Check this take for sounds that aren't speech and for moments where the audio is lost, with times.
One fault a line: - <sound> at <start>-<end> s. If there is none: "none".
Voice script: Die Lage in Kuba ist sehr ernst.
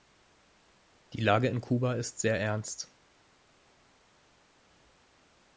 none